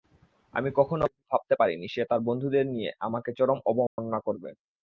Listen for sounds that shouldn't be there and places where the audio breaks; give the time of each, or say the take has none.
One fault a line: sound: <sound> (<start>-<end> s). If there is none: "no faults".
sound: dropout (3.9-4.0 s)